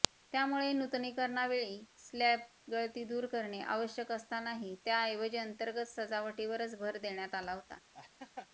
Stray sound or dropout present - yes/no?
yes